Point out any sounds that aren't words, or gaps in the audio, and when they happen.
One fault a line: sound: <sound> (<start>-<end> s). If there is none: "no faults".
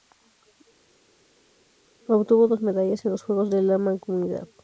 no faults